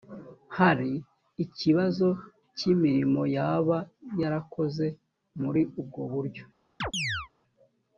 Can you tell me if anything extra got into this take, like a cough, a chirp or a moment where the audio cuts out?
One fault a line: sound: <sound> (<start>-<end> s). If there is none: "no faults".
sound: chirp (6.8-7.3 s)